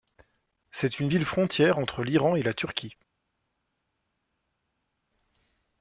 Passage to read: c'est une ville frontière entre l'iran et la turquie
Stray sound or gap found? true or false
false